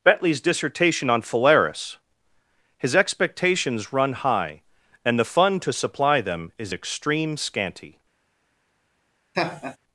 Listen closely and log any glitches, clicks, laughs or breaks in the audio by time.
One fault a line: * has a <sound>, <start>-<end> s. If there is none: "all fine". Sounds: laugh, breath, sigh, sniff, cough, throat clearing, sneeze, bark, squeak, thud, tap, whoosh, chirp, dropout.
* has a laugh, 9.3-9.8 s